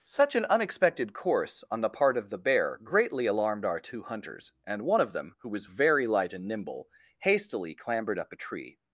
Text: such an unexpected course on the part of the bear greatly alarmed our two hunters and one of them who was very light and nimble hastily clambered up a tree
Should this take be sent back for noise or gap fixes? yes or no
no